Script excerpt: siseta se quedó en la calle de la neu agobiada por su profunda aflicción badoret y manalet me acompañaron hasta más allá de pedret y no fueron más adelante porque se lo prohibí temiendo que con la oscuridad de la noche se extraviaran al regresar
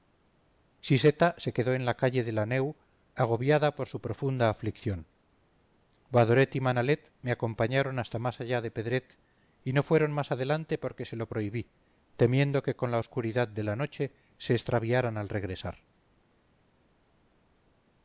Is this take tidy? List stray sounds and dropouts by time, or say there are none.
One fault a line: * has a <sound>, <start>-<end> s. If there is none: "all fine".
all fine